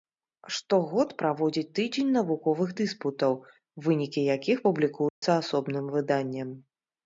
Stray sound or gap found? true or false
true